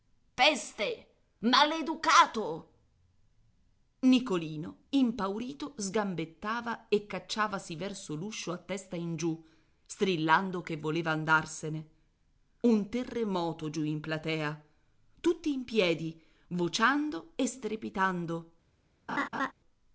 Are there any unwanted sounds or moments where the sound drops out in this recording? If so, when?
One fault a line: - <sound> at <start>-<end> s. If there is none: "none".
- laugh at 19.1-19.5 s